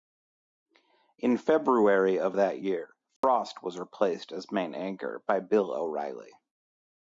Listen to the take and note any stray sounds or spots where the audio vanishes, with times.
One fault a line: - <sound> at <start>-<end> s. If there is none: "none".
- dropout at 3.2-3.2 s